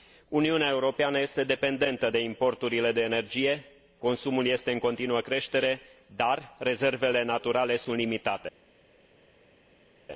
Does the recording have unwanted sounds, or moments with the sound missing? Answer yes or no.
no